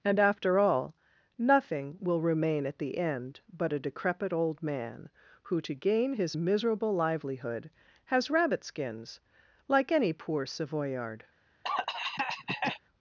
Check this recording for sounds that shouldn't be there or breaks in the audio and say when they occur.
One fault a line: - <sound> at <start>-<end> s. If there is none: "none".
- cough at 11.6-12.8 s